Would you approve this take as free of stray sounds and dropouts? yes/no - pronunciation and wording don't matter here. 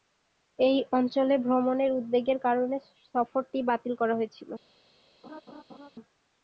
no